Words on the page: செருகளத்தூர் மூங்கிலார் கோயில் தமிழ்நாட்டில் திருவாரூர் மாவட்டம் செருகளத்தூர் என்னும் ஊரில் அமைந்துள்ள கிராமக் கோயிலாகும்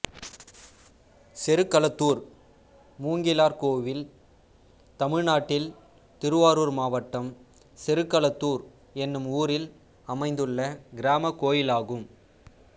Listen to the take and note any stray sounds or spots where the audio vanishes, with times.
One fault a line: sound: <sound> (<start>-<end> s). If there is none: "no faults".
no faults